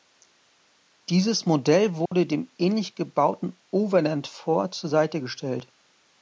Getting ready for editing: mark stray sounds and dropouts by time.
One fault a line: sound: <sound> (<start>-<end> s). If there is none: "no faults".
sound: dropout (2.1-2.1 s)